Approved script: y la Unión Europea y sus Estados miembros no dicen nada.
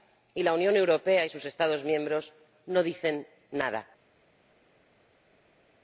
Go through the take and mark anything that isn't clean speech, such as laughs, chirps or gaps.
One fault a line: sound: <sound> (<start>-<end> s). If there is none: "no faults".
no faults